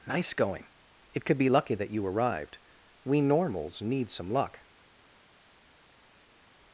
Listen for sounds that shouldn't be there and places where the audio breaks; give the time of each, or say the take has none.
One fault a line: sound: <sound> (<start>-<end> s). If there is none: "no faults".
no faults